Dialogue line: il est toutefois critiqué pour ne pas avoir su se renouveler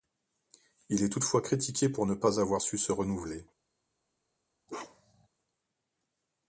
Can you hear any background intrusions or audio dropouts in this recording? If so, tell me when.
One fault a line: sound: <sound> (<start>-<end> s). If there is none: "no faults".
sound: bark (4.7-5.3 s)